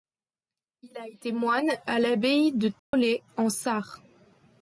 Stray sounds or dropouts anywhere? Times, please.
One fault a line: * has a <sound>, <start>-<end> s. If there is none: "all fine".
* has a dropout, 2.8-2.9 s